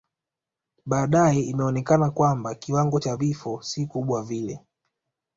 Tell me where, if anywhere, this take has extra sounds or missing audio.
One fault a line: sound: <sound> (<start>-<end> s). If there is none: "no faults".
no faults